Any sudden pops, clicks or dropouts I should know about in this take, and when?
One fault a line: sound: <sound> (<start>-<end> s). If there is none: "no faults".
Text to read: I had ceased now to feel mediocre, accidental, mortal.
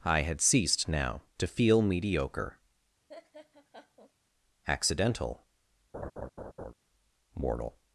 sound: laugh (3.1-4.1 s)
sound: laugh (5.9-6.7 s)